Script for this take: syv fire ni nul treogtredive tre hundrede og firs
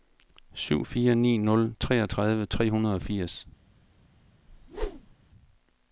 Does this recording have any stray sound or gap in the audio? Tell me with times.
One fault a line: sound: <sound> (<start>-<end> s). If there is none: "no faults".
sound: whoosh (4.5-5.1 s)